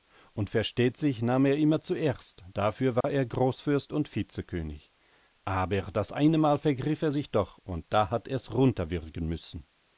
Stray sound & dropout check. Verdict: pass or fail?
fail